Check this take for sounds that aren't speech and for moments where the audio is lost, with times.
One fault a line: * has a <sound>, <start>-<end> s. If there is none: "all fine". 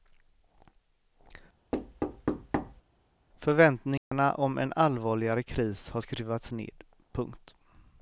* has a thud, 1.7-2.8 s
* has a dropout, 4.0-4.1 s